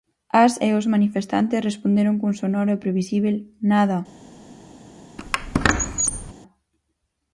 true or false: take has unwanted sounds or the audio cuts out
true